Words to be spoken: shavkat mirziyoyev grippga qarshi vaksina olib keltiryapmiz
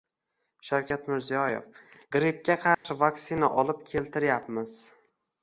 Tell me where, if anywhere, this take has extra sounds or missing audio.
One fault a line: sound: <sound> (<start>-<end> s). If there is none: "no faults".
sound: dropout (2.7-2.8 s)